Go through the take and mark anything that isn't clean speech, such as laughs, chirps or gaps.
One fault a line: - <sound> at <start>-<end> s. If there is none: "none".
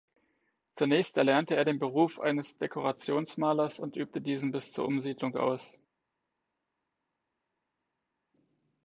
none